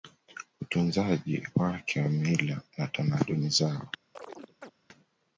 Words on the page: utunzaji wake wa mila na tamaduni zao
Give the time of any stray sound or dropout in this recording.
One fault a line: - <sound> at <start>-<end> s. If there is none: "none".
- chirp at 4.1-4.7 s